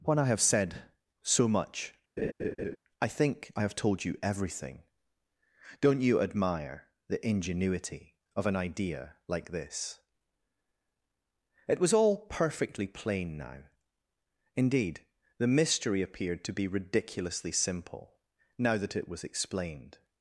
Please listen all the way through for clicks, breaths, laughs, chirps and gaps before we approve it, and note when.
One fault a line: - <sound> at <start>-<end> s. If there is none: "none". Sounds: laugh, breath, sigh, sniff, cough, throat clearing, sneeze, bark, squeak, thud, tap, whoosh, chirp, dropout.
- laugh at 2.2-2.8 s